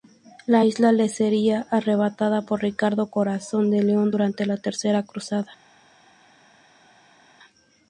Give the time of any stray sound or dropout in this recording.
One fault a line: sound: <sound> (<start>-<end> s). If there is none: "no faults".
no faults